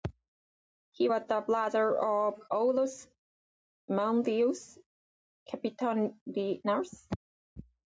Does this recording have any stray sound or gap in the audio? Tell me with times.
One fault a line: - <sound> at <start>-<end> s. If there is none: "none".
none